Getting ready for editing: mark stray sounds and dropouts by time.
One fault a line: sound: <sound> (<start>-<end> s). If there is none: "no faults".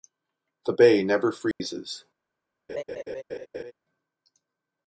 sound: dropout (1.5-1.6 s)
sound: laugh (2.7-3.7 s)